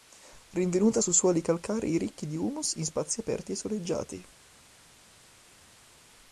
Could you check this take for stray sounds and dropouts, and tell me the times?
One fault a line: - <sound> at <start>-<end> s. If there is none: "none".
none